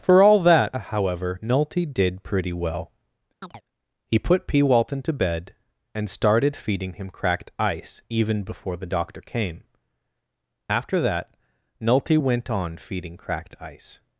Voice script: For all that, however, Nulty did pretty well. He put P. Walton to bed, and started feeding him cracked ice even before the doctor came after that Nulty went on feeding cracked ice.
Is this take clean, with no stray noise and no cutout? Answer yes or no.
no